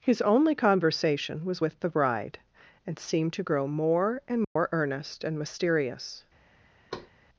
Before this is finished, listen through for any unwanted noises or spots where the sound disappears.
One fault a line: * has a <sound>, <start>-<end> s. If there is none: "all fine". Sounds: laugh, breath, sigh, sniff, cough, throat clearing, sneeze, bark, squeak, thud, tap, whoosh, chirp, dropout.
* has a dropout, 4.4-4.6 s
* has a thud, 6.9-7.1 s